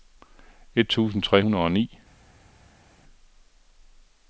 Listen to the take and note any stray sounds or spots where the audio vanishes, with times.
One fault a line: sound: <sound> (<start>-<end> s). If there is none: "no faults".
no faults